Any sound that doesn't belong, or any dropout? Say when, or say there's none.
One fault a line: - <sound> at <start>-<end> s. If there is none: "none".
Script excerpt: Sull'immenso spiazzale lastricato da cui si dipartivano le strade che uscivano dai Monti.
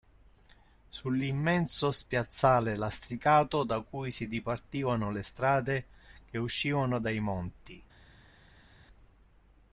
none